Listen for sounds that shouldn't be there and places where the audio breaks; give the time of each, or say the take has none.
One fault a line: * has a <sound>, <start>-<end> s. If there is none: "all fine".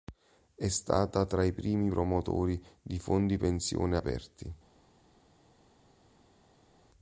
all fine